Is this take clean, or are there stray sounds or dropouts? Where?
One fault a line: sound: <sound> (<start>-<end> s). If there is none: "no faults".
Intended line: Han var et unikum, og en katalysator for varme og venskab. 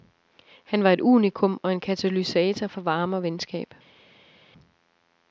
no faults